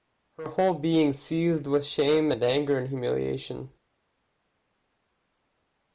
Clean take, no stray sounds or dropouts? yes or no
yes